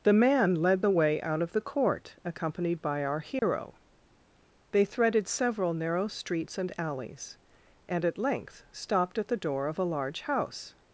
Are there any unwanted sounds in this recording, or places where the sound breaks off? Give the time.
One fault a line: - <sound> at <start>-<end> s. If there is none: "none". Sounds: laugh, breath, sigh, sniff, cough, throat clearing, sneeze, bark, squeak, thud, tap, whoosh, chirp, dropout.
- dropout at 3.4-3.4 s